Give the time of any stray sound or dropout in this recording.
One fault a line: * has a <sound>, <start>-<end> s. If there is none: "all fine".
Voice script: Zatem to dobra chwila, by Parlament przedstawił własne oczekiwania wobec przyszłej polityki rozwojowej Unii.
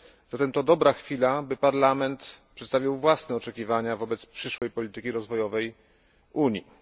* has a dropout, 4.6-4.6 s